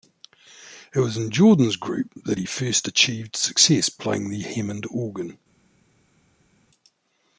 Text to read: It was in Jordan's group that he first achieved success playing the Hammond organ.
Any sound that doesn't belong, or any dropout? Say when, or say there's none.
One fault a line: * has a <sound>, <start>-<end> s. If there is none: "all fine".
all fine